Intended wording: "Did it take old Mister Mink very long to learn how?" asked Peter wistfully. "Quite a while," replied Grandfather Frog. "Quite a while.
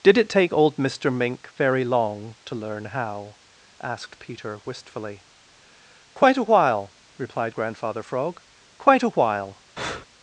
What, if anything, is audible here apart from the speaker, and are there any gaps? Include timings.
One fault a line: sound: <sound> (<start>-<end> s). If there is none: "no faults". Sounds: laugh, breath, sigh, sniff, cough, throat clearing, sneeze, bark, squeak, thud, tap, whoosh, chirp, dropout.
sound: breath (9.8-10.1 s)